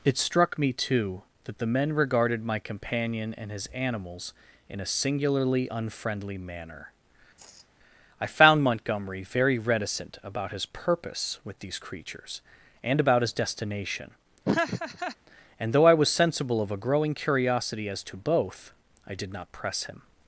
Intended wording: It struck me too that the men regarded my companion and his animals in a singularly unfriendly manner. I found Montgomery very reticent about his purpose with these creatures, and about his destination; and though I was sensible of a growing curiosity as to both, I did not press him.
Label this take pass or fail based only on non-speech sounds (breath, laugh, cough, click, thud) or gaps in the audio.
fail